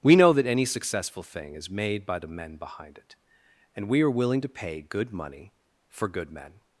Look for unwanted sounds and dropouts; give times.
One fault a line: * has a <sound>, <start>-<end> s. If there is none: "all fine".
all fine